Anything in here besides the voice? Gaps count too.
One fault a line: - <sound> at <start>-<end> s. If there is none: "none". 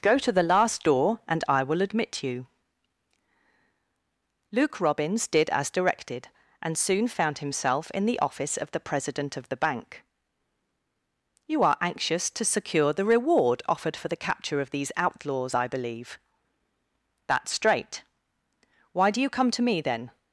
none